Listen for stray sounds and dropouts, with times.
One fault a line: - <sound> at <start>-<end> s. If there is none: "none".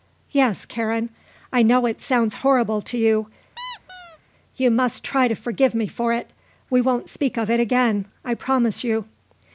- squeak at 3.6-4.2 s